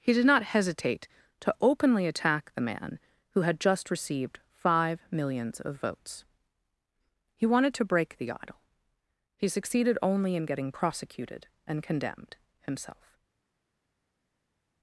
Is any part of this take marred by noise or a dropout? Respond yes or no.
no